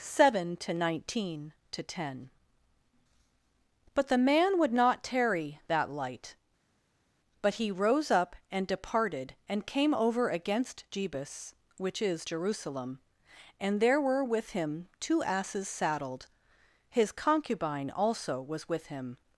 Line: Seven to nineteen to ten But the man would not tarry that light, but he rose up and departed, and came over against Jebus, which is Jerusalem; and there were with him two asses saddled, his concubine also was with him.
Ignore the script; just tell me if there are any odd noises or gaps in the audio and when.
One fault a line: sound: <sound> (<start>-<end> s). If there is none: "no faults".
no faults